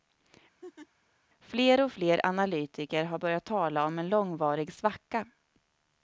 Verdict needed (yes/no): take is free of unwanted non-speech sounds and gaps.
no